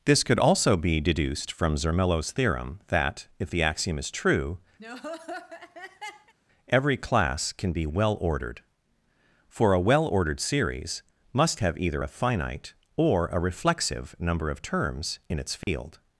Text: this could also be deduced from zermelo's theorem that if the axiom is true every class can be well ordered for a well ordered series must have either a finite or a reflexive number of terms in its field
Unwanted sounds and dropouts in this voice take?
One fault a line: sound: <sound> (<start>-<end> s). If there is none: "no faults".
sound: laugh (4.8-6.3 s)
sound: dropout (15.6-15.7 s)